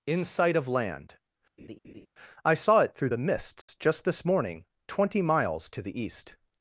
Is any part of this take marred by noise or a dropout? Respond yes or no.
yes